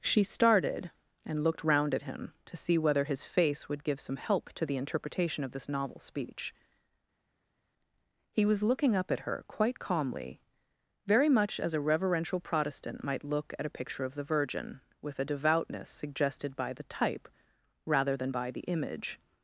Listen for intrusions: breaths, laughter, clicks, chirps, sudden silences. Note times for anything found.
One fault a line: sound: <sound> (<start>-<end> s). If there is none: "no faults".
no faults